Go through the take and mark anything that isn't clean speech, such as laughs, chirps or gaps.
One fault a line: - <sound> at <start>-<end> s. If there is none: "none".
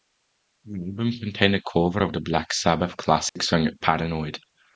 - dropout at 3.3-3.4 s